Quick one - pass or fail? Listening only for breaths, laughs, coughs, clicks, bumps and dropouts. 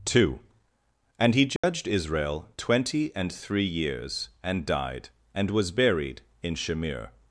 fail